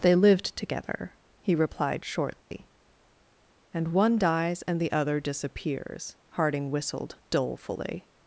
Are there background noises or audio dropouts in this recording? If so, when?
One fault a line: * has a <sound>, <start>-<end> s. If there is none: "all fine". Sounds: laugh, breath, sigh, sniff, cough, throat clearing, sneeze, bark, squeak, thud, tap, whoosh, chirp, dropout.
* has a dropout, 2.4-2.5 s